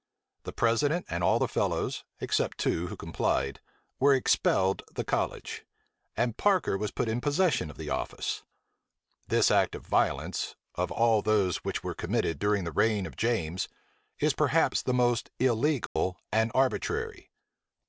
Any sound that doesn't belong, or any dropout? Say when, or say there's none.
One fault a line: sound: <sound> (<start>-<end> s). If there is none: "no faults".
sound: dropout (15.9-16.0 s)